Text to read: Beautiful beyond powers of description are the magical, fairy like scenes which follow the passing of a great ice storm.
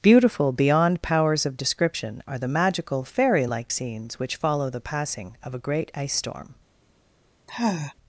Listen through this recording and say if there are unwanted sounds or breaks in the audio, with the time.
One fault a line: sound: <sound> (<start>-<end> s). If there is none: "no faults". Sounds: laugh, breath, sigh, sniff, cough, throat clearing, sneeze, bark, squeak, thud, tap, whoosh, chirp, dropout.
sound: sigh (7.5-7.9 s)